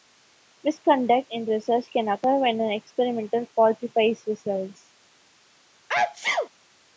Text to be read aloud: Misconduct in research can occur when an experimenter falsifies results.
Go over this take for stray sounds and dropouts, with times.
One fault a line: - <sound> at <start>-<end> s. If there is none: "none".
- sneeze at 5.9-6.5 s